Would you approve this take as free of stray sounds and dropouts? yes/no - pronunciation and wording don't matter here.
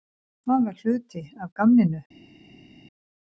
yes